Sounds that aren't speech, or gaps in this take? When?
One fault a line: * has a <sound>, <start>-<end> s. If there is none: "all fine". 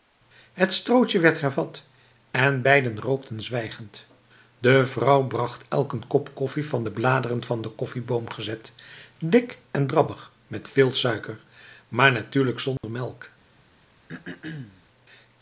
* has a dropout, 12.8-12.8 s
* has a throat clearing, 14.1-14.8 s